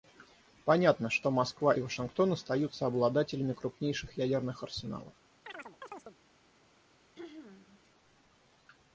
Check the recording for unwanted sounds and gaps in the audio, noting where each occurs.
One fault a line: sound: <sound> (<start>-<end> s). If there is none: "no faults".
sound: chirp (5.5-6.2 s)
sound: throat clearing (7.1-7.8 s)